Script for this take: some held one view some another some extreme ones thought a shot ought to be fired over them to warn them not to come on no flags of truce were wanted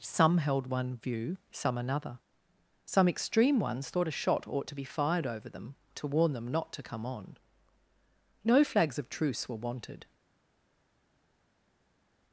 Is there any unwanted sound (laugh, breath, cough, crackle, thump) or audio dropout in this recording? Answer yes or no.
no